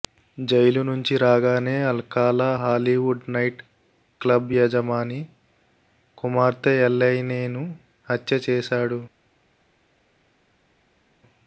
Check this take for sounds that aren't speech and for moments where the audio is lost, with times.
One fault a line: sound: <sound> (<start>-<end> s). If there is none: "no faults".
no faults